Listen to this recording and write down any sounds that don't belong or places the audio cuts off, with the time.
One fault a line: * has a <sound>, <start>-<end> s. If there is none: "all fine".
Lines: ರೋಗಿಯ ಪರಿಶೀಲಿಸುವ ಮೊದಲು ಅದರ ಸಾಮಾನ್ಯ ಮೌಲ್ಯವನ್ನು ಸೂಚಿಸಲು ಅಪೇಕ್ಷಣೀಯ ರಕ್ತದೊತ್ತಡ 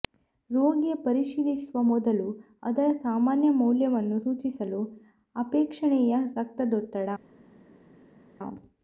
all fine